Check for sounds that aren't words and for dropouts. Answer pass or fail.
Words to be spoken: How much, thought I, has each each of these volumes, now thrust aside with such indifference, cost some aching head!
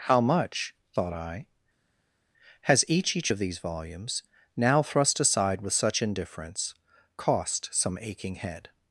pass